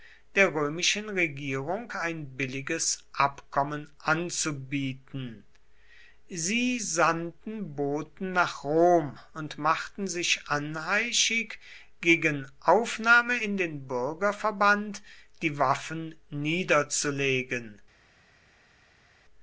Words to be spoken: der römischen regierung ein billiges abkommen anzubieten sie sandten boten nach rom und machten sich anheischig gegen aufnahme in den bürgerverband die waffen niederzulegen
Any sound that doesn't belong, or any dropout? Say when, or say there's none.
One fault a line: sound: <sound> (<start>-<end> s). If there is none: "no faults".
no faults